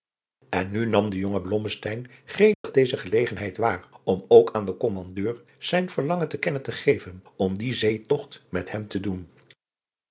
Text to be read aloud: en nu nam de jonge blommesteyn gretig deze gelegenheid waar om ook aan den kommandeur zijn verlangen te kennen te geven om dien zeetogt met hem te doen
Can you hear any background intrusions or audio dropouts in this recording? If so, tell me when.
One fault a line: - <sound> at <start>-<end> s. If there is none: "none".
- dropout at 2.5-2.6 s